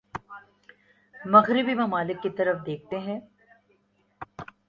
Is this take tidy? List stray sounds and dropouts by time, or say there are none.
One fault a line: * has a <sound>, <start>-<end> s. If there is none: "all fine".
all fine